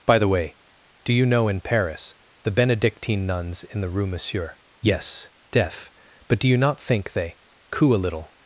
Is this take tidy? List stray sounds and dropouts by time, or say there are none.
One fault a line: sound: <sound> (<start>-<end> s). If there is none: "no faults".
no faults